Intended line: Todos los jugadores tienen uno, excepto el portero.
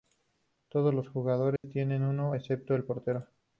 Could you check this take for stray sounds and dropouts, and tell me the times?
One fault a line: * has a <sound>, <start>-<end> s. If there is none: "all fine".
* has a dropout, 1.6-1.6 s